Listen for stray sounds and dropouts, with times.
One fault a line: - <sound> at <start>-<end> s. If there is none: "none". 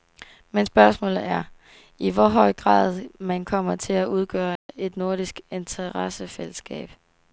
- dropout at 4.6-4.7 s